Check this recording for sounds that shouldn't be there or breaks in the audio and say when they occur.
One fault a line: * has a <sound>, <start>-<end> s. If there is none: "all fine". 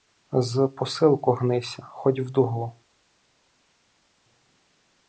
all fine